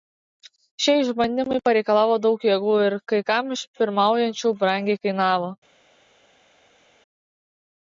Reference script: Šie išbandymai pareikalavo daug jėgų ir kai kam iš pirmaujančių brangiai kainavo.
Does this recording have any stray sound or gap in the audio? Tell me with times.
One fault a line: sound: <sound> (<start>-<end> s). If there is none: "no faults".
no faults